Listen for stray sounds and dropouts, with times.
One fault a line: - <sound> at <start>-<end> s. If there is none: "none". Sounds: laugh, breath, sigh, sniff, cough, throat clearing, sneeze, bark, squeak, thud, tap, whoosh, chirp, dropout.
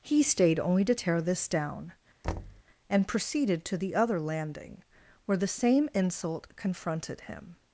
- thud at 2.2-2.6 s